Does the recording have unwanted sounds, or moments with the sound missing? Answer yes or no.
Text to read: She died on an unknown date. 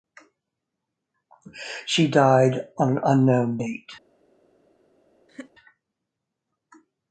yes